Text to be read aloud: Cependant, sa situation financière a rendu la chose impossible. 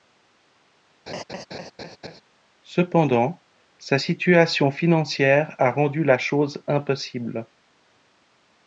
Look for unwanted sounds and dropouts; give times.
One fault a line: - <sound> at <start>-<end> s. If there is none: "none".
- laugh at 1.1-2.2 s